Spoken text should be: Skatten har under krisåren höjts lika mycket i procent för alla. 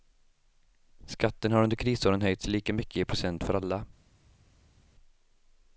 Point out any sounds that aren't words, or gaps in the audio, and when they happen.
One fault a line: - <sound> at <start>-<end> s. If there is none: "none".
none